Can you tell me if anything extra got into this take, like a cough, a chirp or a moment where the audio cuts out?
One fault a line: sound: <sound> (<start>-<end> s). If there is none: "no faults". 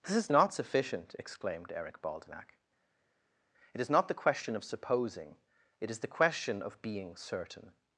no faults